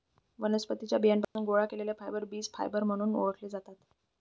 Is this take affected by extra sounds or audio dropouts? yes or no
yes